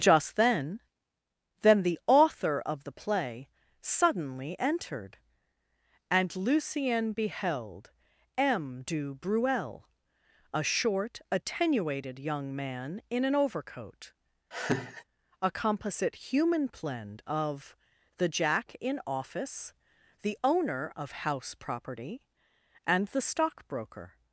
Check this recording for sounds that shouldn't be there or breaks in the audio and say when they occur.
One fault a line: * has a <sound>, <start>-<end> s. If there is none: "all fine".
* has a laugh, 14.5-15.0 s